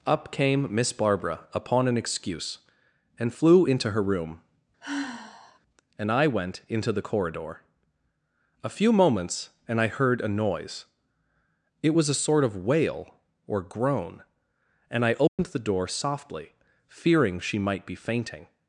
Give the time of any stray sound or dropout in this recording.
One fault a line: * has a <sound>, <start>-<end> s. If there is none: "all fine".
* has a sigh, 4.8-5.6 s
* has a dropout, 15.3-15.4 s